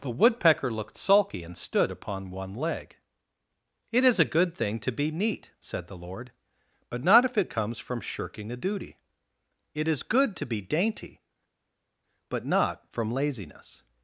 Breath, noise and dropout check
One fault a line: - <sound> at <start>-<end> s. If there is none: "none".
none